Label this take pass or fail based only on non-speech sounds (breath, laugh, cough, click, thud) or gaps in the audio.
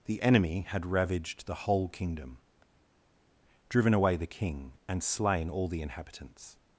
pass